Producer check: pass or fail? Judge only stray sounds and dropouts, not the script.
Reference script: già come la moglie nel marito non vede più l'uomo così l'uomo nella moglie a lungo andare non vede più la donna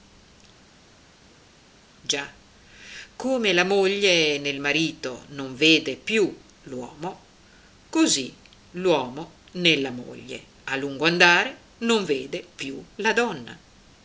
pass